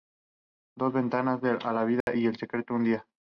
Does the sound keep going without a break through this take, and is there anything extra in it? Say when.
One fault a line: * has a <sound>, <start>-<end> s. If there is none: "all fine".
* has a dropout, 2.0-2.1 s